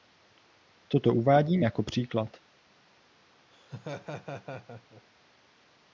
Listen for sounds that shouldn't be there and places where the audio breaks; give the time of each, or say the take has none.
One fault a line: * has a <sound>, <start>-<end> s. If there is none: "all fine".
* has a laugh, 3.5-5.0 s